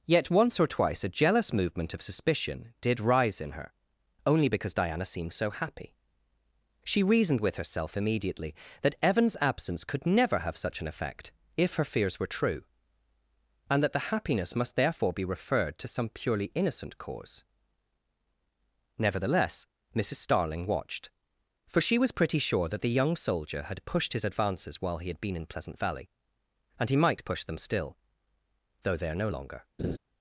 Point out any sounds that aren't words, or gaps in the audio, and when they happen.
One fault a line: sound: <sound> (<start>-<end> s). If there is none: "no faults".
sound: laugh (29.8-30.0 s)